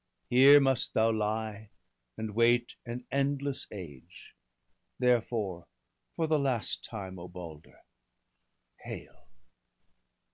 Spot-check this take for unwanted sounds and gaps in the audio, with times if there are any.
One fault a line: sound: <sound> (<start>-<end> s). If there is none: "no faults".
no faults